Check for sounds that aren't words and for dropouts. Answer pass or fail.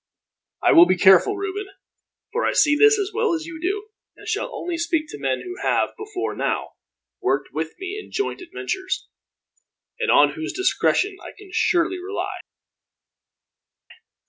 pass